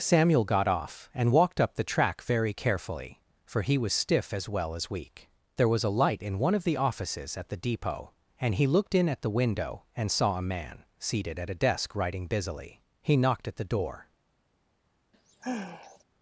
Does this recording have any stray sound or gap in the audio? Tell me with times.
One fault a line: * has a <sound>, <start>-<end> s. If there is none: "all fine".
* has a sigh, 15.1-16.0 s